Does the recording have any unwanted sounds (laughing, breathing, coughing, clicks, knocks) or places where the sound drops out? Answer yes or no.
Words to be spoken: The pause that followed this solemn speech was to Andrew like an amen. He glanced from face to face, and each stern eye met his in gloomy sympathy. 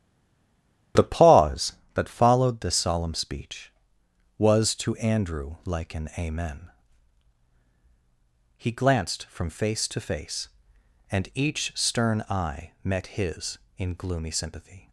no